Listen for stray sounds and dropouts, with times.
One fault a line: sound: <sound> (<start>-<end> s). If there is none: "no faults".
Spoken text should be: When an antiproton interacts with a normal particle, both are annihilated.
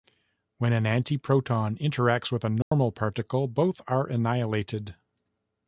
sound: dropout (2.6-2.7 s)